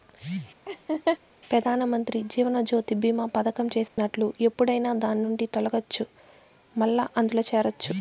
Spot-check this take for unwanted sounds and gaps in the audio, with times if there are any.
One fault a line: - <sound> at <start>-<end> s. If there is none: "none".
- laugh at 0.7-1.2 s
- dropout at 3.9-4.0 s